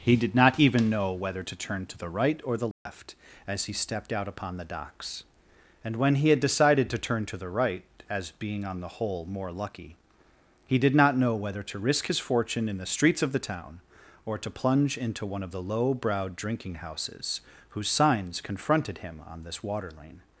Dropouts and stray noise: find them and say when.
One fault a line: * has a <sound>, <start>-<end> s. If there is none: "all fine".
* has a dropout, 2.7-2.9 s